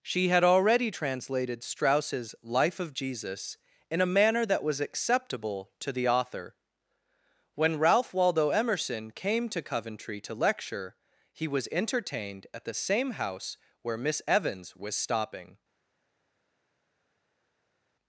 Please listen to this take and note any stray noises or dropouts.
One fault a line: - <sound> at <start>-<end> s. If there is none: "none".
none